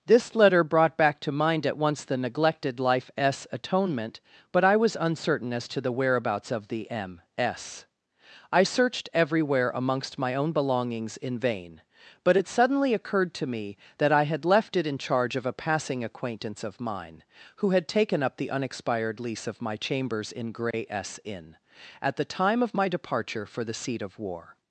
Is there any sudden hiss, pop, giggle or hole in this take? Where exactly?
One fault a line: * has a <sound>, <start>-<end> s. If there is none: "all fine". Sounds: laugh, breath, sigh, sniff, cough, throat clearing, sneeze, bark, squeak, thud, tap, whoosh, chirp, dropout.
* has a dropout, 20.7-20.7 s